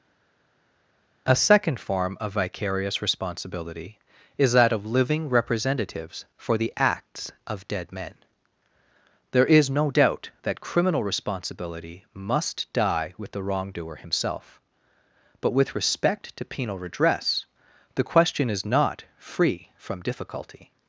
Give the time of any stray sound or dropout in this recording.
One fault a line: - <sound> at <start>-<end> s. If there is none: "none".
none